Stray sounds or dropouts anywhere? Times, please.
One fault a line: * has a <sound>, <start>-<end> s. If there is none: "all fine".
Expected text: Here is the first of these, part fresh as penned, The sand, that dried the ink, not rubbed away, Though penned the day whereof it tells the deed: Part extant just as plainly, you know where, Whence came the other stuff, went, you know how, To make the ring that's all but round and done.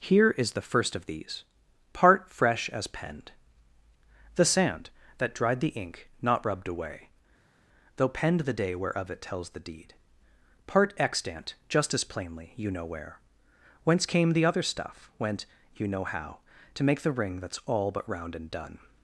all fine